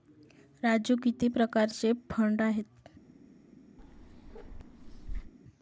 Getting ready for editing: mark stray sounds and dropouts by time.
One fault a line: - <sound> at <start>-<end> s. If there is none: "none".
- bark at 3.8-5.3 s